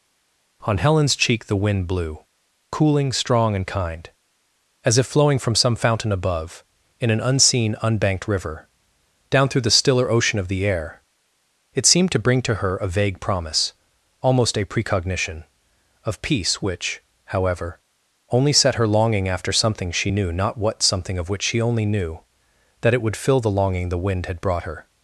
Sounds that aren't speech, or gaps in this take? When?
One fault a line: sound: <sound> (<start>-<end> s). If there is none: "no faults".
no faults